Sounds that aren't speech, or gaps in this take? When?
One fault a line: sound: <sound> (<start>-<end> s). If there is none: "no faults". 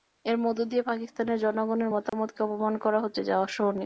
sound: dropout (2.1-2.1 s)